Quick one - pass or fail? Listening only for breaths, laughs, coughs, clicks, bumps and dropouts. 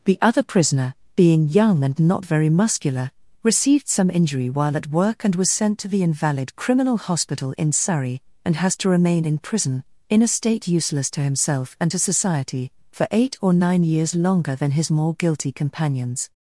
pass